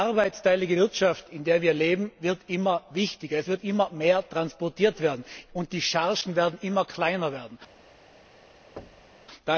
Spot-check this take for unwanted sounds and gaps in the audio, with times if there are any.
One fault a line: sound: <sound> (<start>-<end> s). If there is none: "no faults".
sound: thud (8.8-9.3 s)